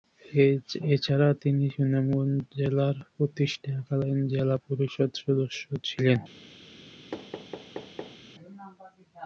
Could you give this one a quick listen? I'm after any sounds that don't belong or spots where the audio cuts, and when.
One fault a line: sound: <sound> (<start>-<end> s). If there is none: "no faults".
sound: thud (7.1-8.2 s)